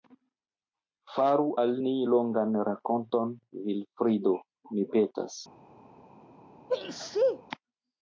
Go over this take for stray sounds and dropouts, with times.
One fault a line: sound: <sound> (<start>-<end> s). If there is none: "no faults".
sound: sneeze (6.7-7.4 s)